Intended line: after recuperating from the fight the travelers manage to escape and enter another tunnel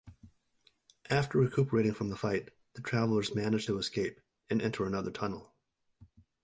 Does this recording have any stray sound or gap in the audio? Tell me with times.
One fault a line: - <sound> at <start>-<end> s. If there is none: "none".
none